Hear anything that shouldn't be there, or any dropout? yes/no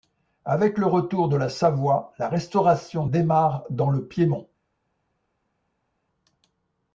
no